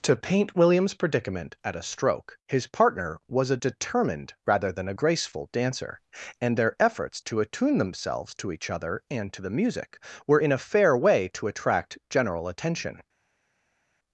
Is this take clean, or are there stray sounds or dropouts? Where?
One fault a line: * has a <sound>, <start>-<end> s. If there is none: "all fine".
all fine